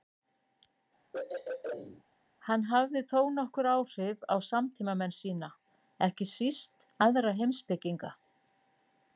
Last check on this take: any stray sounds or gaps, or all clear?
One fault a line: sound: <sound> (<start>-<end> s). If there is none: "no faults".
sound: throat clearing (1.1-2.0 s)